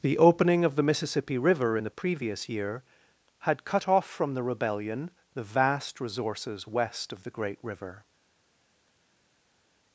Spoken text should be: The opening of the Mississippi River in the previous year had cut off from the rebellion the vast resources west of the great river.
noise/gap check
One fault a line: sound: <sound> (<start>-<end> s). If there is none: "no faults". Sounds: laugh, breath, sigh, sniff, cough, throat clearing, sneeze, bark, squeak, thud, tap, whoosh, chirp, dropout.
no faults